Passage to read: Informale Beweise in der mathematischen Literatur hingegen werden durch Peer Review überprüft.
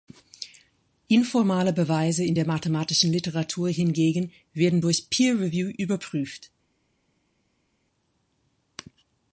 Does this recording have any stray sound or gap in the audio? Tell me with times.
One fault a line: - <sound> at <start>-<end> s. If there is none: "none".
none